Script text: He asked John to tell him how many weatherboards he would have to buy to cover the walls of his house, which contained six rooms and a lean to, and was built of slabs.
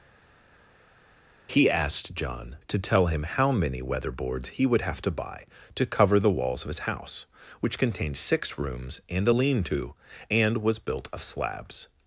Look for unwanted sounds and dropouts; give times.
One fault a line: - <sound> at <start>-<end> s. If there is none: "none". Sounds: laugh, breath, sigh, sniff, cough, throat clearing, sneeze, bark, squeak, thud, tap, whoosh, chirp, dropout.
none